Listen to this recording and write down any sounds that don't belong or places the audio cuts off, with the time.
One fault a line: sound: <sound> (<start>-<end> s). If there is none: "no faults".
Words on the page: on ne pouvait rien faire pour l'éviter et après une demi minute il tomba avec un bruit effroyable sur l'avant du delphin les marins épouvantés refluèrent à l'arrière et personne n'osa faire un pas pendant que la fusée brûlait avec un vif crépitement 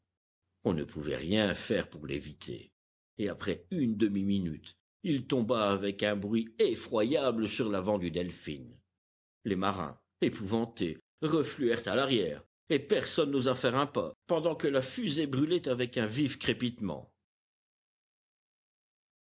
no faults